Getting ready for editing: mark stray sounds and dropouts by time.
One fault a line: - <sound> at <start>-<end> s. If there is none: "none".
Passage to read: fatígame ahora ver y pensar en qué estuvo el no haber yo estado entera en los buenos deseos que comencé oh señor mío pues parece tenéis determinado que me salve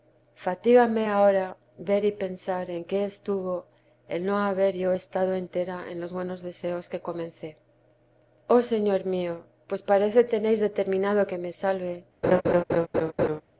- laugh at 12.2-13.4 s